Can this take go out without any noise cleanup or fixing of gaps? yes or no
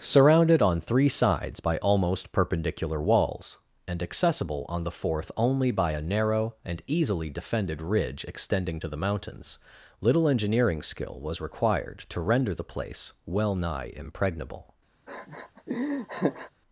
no